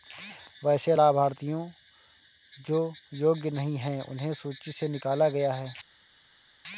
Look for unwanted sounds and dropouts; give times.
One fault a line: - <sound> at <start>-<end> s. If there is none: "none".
none